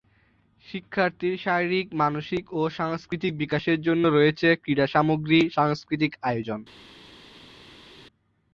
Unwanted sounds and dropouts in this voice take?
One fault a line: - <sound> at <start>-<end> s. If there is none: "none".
none